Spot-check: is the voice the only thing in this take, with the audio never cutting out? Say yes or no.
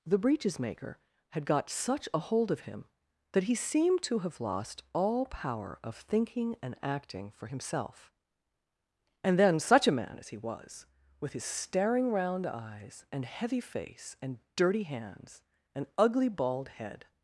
yes